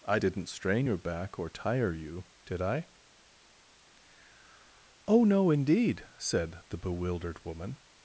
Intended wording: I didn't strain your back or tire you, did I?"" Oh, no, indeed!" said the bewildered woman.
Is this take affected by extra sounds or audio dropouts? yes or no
no